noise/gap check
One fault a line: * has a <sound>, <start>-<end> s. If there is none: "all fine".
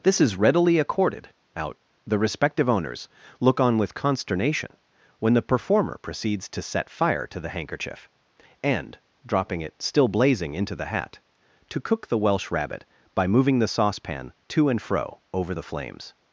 all fine